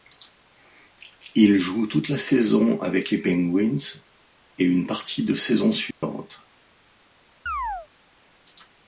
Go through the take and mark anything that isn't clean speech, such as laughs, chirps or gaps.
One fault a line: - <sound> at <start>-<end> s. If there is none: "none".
- dropout at 5.9-6.0 s
- chirp at 7.5-7.9 s